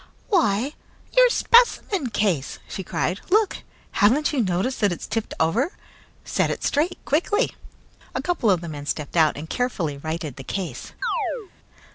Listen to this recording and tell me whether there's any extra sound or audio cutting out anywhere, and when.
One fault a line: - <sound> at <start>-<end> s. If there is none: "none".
- chirp at 11.0-11.5 s